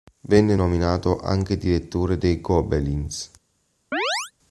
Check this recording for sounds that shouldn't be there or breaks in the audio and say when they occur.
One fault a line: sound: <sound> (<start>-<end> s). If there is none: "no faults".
sound: chirp (3.9-4.3 s)